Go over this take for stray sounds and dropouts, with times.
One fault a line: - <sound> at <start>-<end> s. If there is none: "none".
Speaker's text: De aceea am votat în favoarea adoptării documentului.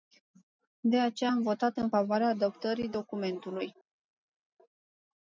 none